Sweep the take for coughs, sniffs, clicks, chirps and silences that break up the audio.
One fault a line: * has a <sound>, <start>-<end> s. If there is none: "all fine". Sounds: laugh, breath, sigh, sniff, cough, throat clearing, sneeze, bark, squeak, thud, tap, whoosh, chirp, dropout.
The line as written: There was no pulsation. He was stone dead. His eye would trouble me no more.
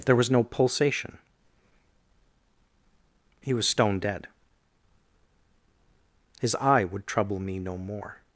all fine